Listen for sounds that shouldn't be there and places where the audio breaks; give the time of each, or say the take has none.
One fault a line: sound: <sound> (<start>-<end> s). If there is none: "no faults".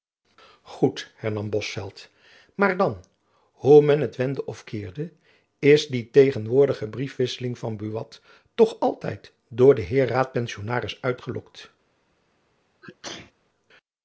sound: sneeze (12.8-13.3 s)